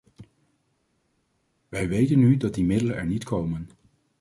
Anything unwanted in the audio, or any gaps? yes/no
no